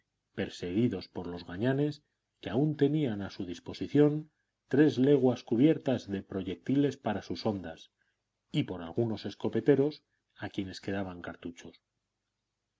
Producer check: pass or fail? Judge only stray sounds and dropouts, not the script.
pass